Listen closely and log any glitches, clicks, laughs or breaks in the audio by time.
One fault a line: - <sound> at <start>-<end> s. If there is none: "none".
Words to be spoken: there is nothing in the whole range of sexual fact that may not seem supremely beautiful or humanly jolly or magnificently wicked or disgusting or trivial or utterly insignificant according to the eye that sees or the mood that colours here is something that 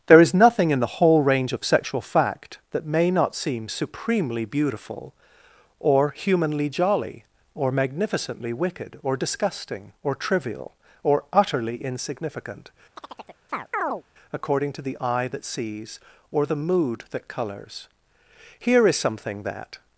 - chirp at 13.0-14.0 s